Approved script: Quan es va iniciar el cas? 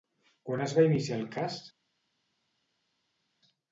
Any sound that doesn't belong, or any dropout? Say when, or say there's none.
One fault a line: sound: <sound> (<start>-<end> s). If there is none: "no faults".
no faults